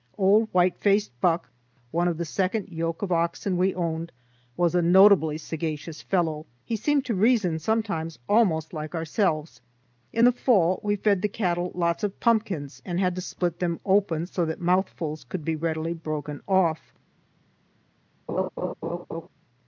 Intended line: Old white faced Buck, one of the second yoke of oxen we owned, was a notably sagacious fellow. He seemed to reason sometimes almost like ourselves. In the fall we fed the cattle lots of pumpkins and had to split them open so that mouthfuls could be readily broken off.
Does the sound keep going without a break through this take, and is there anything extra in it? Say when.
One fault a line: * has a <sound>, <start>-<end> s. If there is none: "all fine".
* has a laugh, 18.3-19.3 s